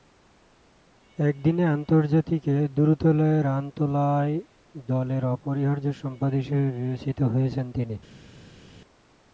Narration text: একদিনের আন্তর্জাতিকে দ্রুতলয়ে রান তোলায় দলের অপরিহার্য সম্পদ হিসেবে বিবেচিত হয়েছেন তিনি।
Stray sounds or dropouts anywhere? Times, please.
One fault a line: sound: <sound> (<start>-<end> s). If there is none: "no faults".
no faults